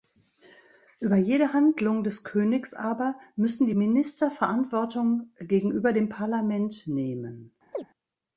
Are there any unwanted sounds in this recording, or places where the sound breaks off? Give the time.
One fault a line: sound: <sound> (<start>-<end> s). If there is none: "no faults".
sound: chirp (7.7-7.9 s)